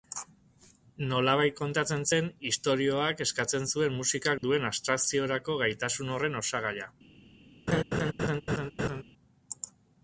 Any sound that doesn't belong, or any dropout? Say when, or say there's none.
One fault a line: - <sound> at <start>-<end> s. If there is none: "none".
- dropout at 4.4-4.4 s
- laugh at 7.7-9.0 s